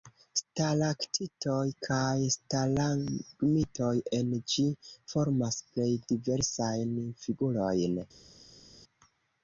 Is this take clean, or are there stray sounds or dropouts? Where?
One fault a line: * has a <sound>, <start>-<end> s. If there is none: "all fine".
all fine